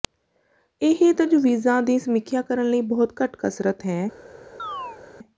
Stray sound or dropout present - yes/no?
yes